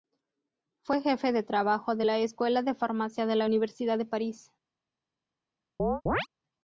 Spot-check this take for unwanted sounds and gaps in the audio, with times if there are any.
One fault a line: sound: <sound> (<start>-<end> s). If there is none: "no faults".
sound: chirp (5.8-6.3 s)